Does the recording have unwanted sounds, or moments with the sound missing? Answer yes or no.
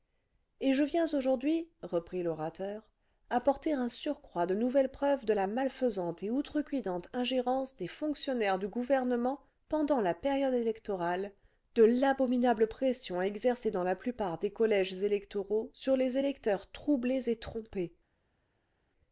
no